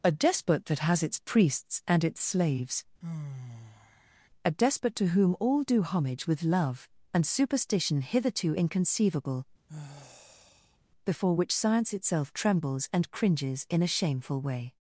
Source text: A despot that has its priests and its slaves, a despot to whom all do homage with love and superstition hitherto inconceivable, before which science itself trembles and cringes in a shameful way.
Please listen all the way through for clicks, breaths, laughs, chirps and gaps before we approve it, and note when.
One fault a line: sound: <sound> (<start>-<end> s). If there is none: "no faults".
sound: sigh (3.0-4.3 s)
sound: sigh (9.7-10.8 s)